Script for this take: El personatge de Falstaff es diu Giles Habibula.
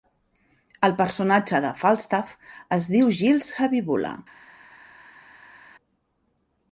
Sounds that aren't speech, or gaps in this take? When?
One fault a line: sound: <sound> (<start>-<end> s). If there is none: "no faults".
no faults